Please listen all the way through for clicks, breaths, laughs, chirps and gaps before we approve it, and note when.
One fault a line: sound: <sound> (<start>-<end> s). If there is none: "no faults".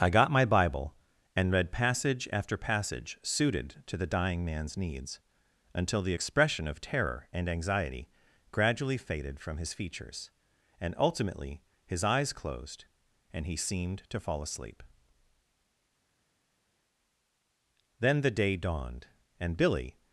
no faults